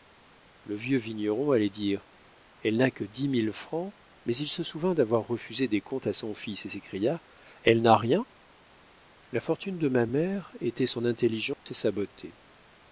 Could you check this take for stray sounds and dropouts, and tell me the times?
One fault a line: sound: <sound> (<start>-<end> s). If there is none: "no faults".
sound: dropout (11.5-11.7 s)